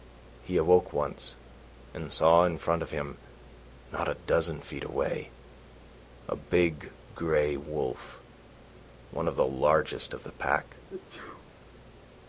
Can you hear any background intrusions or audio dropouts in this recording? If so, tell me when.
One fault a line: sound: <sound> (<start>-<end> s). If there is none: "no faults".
sound: sneeze (10.9-11.5 s)